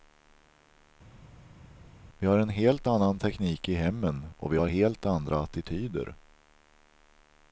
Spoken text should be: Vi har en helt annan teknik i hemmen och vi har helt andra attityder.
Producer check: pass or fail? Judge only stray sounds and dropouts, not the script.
pass